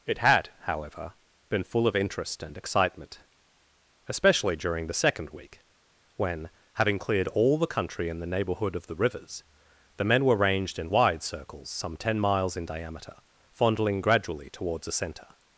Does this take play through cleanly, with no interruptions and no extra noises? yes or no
yes